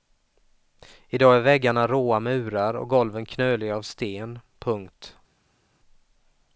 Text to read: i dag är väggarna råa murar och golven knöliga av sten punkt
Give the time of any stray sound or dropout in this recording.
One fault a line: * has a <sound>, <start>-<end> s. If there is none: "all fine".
all fine